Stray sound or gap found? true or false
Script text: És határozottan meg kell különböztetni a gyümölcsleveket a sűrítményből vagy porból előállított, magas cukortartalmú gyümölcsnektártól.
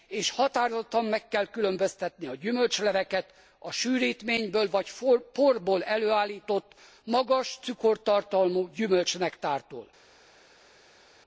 false